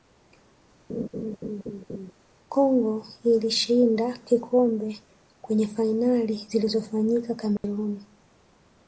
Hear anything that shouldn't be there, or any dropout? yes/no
yes